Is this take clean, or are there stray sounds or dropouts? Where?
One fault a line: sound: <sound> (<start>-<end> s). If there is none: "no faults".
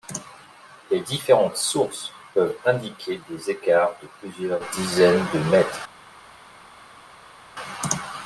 no faults